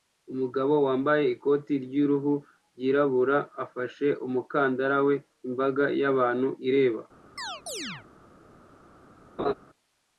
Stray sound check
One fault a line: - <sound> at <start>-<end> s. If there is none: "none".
- chirp at 7.4-8.1 s
- laugh at 9.4-9.5 s